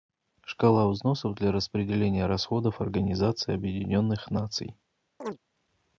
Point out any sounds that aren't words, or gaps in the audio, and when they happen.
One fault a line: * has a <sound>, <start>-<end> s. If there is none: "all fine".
* has a chirp, 5.2-5.4 s